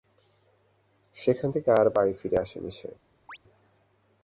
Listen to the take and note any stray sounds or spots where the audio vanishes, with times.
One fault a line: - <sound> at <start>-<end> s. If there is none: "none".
- chirp at 3.3-3.4 s